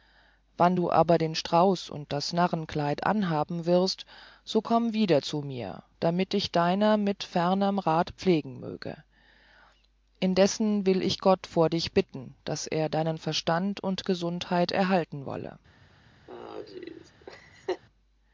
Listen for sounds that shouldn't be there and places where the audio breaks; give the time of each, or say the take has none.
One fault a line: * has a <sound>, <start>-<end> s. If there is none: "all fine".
* has a laugh, 16.3-17.8 s